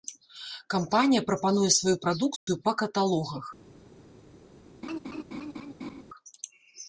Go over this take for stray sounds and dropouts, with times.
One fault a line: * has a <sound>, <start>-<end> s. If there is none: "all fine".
* has a dropout, 2.4-2.5 s
* has a laugh, 4.8-6.0 s